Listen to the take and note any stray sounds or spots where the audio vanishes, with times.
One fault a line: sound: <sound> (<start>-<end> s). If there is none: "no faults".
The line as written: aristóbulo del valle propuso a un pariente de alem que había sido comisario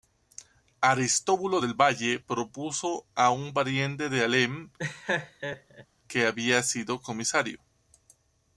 sound: laugh (4.8-5.9 s)